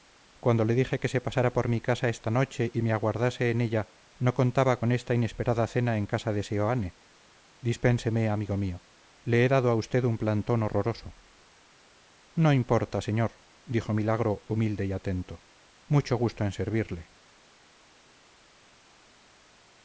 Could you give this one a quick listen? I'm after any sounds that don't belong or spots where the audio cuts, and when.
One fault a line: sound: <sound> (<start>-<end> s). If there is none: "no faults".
no faults